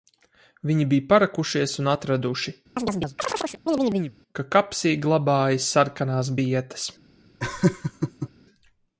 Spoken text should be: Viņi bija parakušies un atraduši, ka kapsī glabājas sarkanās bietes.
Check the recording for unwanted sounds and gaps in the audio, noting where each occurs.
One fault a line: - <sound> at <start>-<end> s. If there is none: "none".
- chirp at 2.8-4.2 s
- laugh at 7.4-8.3 s